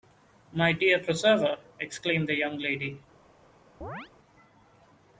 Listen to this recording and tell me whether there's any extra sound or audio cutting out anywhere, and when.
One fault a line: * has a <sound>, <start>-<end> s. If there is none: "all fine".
* has a chirp, 3.8-4.1 s